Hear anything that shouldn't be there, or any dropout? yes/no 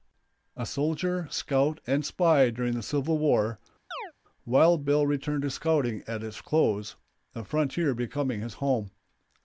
yes